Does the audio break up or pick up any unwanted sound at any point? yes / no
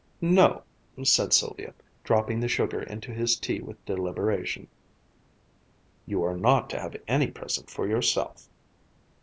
no